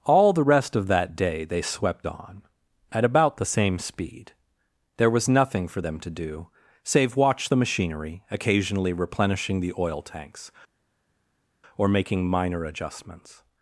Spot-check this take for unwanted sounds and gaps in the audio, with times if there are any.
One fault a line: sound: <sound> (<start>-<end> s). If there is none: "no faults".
no faults